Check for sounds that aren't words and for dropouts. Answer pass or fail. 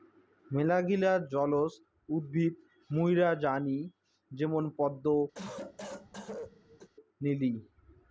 fail